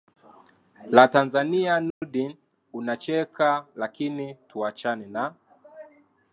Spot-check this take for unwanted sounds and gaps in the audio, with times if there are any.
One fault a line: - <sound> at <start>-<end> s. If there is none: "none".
- dropout at 1.9-2.0 s